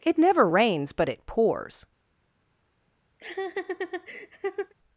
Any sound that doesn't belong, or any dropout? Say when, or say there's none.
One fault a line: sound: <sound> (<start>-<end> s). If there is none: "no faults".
sound: laugh (3.2-4.7 s)